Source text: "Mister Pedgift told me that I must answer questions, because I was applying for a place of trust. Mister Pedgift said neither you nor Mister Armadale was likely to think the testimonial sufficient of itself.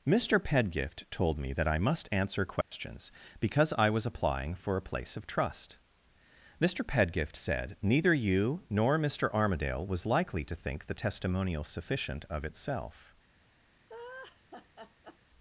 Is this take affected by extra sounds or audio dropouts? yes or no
yes